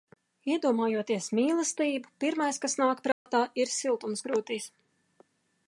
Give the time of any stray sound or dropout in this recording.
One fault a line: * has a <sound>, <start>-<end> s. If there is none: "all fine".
* has a dropout, 3.1-3.3 s